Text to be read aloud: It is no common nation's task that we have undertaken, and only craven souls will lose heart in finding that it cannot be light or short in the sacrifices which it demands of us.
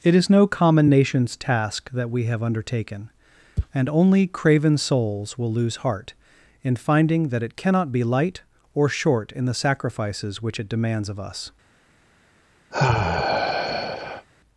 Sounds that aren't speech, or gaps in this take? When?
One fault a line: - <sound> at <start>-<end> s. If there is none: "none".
- sigh at 12.7-14.3 s